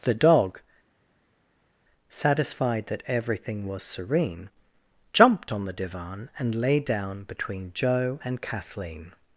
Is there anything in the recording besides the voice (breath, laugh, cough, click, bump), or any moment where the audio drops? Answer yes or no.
no